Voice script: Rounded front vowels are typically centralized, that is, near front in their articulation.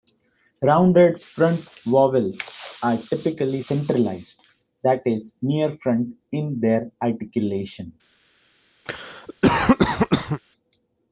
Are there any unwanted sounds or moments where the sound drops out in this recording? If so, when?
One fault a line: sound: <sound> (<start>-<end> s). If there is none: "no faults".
sound: cough (8.9-10.4 s)